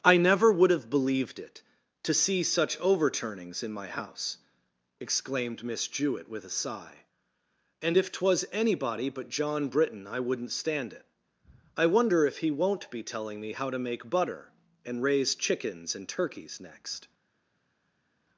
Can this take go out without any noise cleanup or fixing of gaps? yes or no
yes